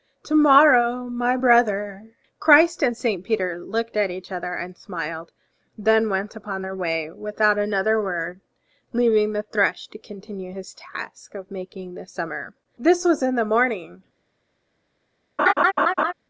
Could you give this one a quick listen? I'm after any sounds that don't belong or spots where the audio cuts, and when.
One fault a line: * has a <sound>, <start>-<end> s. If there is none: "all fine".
* has a laugh, 15.4-16.1 s